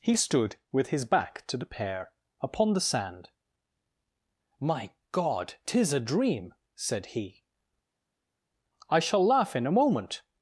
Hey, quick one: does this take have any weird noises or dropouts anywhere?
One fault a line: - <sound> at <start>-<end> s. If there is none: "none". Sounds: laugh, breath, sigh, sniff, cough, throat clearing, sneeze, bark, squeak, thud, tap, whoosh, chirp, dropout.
none